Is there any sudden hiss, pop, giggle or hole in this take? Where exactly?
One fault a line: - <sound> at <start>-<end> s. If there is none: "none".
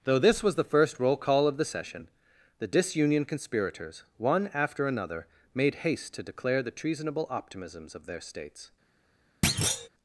- thud at 9.4-9.9 s